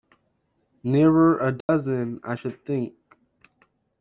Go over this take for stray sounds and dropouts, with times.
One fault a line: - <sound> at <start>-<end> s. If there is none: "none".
- dropout at 1.6-1.7 s